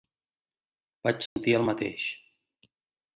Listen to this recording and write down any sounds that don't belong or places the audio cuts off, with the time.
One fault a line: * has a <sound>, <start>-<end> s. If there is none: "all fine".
* has a dropout, 1.3-1.4 s